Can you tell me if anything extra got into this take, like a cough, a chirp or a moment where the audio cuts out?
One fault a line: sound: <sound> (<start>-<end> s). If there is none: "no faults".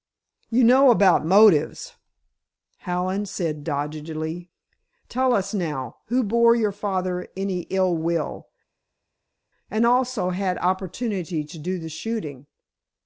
no faults